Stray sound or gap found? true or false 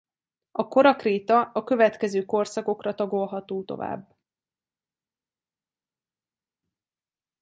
false